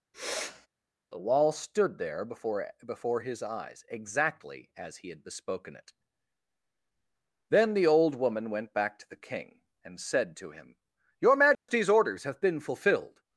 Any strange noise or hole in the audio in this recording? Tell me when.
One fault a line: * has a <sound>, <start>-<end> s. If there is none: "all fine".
* has a sniff, 0.1-0.7 s
* has a dropout, 11.5-11.7 s